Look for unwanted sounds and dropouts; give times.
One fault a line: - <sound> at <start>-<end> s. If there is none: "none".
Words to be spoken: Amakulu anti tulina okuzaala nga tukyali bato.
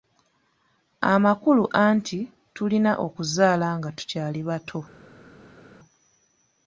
none